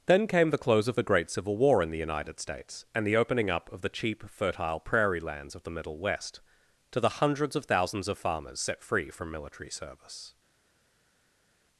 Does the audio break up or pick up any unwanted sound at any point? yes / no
no